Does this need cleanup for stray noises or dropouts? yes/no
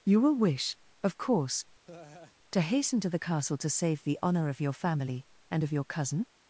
yes